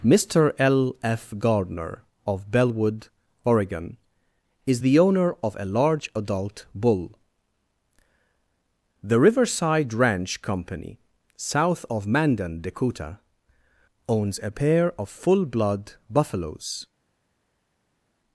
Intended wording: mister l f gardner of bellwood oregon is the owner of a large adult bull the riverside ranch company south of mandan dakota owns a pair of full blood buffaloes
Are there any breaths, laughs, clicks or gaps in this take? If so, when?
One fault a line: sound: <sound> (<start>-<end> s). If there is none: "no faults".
no faults